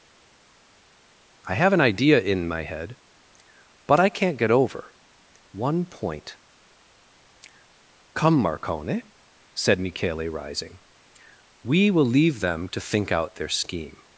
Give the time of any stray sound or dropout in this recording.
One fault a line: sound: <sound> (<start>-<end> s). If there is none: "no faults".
no faults